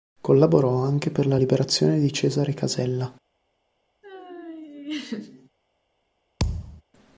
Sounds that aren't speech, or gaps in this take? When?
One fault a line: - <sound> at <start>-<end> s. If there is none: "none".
- laugh at 4.0-5.5 s
- thud at 6.4-6.8 s